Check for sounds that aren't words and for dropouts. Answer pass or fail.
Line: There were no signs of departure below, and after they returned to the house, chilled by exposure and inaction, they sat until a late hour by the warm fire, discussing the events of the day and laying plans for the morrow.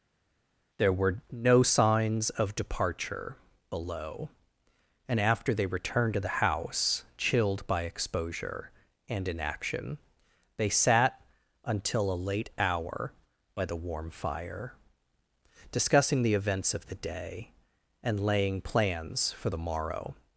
pass